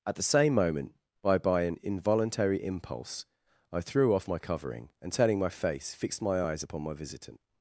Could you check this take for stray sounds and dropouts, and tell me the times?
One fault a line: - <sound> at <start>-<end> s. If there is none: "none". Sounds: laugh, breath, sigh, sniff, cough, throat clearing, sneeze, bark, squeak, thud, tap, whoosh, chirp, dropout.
none